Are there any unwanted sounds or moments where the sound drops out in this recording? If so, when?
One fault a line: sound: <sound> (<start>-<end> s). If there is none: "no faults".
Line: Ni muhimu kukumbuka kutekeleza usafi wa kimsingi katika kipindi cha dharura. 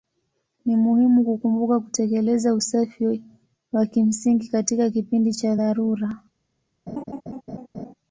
sound: laugh (6.9-7.9 s)